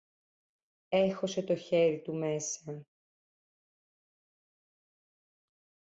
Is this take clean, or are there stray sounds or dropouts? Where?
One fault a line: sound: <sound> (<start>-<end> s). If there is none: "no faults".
no faults